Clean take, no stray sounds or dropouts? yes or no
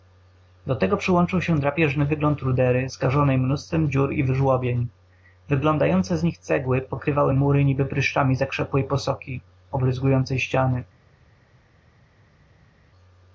yes